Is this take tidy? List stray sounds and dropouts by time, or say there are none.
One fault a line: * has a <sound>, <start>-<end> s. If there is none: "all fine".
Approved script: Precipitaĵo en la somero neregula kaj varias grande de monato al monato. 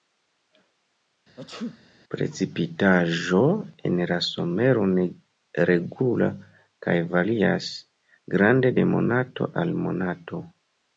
* has a sneeze, 1.4-1.8 s